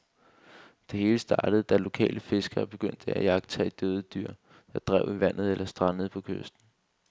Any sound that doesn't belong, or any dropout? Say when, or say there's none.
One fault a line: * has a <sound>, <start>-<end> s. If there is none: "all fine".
all fine